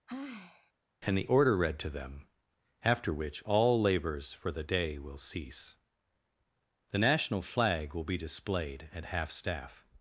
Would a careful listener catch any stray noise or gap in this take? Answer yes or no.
yes